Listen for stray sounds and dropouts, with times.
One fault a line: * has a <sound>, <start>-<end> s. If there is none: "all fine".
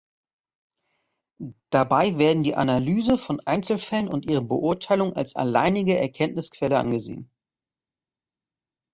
all fine